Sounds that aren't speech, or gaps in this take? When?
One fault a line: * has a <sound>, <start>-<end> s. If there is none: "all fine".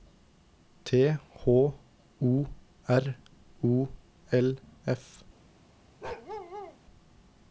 * has a bark, 6.0-6.8 s